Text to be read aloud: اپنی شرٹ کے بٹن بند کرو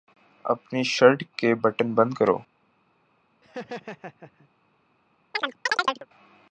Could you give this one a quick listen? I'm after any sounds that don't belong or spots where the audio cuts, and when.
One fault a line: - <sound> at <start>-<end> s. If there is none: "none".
- laugh at 3.4-4.5 s
- chirp at 5.3-6.1 s